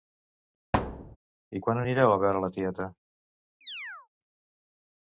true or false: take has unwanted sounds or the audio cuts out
true